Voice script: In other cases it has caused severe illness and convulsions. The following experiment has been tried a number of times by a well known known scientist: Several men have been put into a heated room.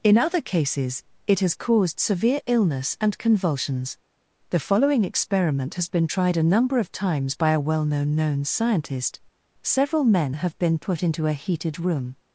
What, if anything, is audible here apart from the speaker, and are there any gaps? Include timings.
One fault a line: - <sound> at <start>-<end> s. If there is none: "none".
none